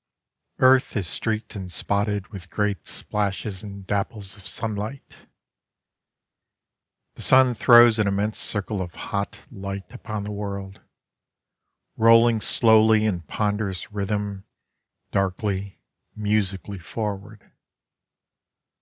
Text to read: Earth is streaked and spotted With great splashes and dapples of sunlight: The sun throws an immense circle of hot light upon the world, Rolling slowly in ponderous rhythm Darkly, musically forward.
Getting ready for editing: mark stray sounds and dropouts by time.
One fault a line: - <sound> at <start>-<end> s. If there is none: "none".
none